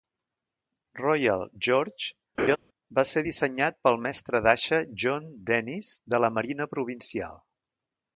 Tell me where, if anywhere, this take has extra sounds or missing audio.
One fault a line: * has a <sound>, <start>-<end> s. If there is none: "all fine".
* has a laugh, 2.4-2.6 s